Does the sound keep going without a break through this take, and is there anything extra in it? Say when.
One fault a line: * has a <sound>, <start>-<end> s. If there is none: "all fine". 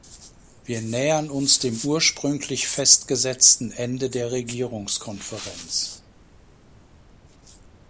all fine